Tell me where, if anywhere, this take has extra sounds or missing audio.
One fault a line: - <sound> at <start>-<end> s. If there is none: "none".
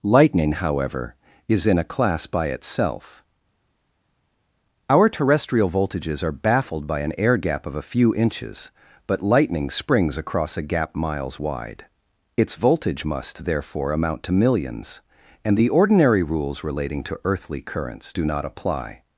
none